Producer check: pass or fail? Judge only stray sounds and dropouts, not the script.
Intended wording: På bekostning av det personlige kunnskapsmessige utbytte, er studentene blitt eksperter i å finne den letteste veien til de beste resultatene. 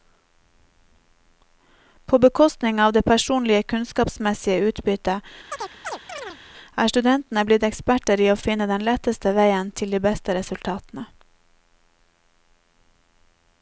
fail